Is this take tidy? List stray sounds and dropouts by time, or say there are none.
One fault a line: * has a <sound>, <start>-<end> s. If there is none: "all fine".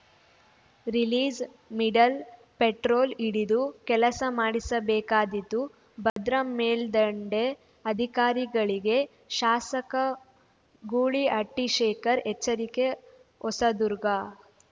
* has a dropout, 6.1-6.2 s